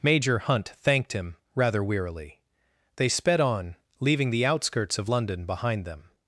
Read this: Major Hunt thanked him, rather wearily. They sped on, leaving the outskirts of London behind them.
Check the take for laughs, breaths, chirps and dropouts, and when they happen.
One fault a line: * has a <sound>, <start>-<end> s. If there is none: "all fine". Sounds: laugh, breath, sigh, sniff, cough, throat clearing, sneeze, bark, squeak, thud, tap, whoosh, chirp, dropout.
all fine